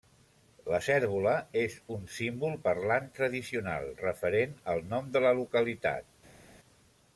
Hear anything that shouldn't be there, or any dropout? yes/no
no